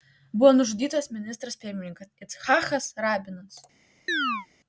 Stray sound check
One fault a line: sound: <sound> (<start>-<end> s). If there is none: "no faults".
sound: chirp (4.1-4.5 s)